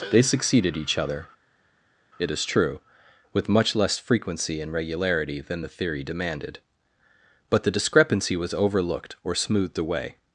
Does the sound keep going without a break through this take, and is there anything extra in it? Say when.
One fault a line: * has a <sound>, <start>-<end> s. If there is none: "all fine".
all fine